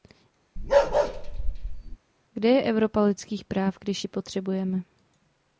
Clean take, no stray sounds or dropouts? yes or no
no